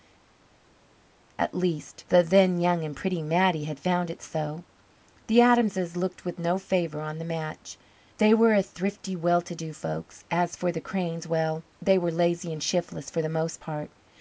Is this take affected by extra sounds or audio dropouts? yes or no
no